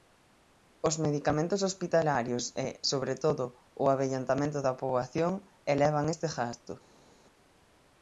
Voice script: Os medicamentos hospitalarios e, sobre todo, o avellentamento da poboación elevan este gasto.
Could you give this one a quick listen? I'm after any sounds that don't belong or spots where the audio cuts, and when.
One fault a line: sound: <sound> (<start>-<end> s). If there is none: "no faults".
no faults